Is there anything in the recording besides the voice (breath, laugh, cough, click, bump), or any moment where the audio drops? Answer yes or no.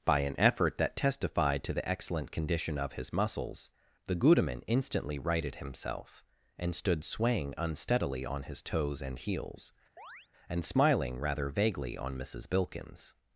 yes